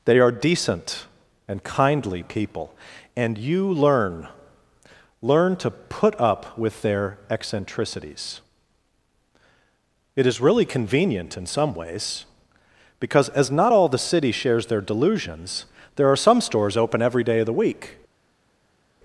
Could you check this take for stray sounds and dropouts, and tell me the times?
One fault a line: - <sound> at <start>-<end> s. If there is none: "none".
none